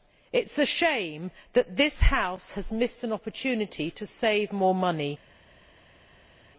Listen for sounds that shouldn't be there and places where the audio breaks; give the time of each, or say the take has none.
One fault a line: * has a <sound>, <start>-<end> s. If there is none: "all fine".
all fine